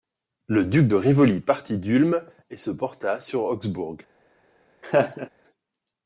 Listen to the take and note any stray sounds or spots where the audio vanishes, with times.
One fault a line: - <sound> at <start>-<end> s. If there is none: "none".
- laugh at 4.8-5.3 s